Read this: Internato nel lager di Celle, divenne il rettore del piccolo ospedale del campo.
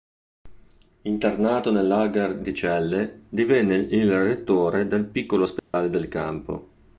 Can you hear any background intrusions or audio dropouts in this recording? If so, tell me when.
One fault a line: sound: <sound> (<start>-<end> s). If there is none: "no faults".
sound: dropout (5.6-5.7 s)